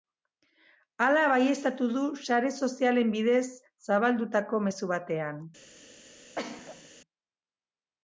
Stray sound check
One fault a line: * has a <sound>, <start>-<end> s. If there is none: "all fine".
* has a sneeze, 6.3-6.9 s